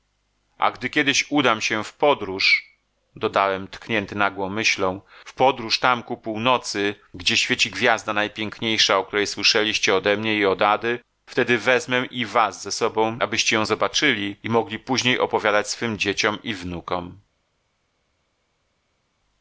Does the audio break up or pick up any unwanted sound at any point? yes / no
no